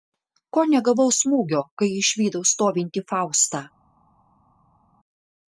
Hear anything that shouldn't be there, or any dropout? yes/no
no